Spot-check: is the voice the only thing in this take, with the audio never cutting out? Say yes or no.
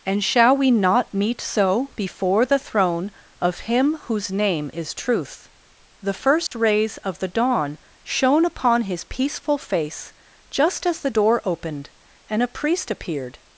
no